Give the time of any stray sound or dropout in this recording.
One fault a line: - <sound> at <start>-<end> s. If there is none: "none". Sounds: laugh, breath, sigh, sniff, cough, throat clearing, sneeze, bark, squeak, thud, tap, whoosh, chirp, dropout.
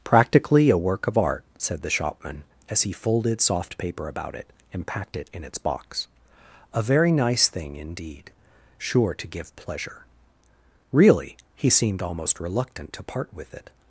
none